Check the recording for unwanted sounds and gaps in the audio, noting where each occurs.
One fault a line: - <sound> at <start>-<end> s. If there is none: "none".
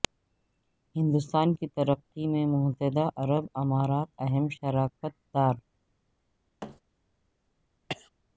- thud at 6.6-6.8 s
- cough at 7.9-8.1 s